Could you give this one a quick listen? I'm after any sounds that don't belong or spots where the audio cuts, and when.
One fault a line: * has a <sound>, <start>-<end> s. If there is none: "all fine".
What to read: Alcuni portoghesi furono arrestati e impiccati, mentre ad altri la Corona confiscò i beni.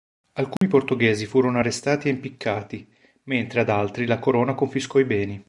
* has a dropout, 0.6-0.6 s